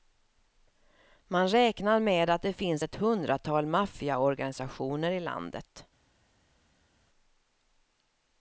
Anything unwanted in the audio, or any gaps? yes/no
no